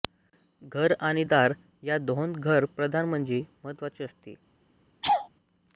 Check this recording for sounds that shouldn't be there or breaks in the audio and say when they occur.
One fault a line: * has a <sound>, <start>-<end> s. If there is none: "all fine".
* has a laugh, 5.0-5.3 s